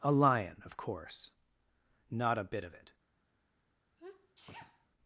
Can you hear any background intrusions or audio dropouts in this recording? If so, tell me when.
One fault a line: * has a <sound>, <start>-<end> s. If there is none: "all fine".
* has a sneeze, 4.0-4.9 s